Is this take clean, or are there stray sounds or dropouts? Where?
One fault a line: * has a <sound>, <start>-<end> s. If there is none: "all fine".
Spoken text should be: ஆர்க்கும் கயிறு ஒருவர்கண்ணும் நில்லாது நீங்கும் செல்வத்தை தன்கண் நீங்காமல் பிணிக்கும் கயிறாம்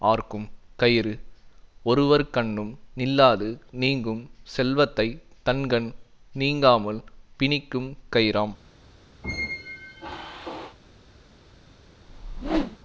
* has a squeak, 9.2-10.8 s
* has a whoosh, 12.0-12.8 s